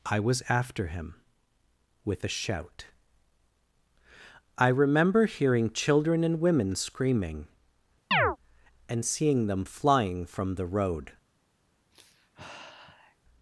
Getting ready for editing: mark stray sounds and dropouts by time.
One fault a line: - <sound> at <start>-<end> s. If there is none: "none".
- chirp at 8.1-8.4 s
- sigh at 11.9-13.2 s